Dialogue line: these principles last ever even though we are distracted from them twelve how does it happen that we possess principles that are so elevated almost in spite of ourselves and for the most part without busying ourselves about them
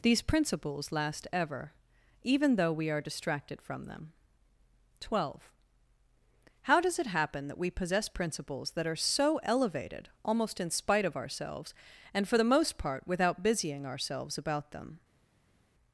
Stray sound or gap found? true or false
false